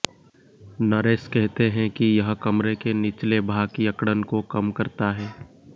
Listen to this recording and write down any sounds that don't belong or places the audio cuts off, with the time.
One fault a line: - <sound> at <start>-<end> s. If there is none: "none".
none